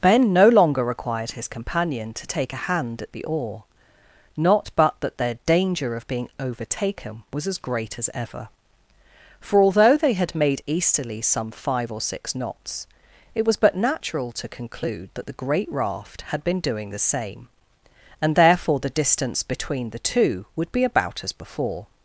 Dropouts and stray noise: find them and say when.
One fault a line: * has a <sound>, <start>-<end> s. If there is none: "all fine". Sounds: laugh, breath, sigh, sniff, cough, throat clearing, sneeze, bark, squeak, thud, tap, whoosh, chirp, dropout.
all fine